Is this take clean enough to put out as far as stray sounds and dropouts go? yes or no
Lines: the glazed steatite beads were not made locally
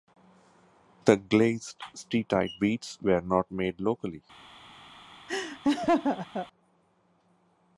no